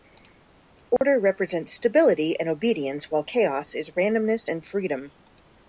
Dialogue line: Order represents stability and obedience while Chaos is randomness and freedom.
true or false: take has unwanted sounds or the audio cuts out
true